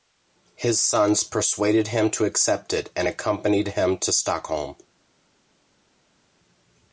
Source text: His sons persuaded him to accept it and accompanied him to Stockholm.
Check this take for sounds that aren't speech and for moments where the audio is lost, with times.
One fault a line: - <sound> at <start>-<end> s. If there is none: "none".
none